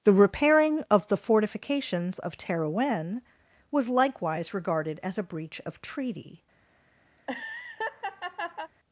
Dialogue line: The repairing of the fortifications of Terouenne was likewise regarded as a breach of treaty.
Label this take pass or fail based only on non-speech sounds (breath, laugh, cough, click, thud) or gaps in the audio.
fail